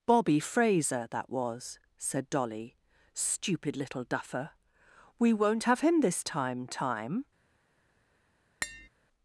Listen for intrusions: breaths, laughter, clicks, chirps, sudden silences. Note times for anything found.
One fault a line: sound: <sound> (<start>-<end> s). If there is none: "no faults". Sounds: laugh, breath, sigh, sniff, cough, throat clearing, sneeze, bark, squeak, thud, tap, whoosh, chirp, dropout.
sound: tap (8.6-8.9 s)